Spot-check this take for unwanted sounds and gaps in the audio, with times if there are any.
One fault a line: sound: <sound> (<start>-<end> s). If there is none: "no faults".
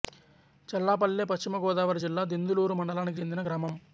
no faults